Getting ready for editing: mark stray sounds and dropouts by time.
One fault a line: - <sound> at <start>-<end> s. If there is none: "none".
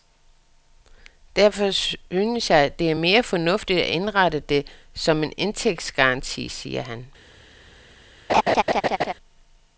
- laugh at 8.3-9.1 s